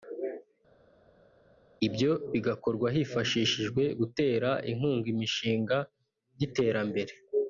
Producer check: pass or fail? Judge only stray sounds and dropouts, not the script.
pass